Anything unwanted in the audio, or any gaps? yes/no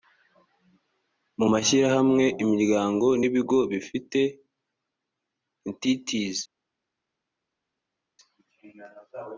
no